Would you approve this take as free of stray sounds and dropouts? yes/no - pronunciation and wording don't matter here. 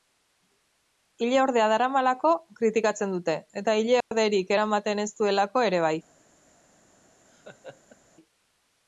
no